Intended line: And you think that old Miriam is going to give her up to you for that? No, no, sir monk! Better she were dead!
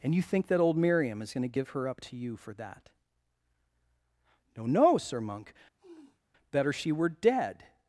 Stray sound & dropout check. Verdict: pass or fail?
fail